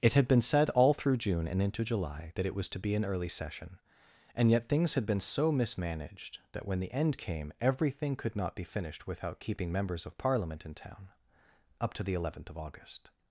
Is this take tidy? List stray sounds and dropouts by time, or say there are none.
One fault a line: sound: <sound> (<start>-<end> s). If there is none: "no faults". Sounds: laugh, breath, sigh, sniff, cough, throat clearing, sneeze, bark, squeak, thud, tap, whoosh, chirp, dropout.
no faults